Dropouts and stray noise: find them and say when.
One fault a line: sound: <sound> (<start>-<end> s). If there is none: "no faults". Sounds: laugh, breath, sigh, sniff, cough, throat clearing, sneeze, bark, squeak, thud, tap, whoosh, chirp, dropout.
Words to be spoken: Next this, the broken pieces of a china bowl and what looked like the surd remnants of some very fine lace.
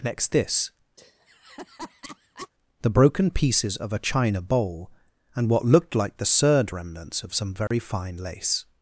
sound: laugh (1.0-2.5 s)
sound: dropout (7.7-7.7 s)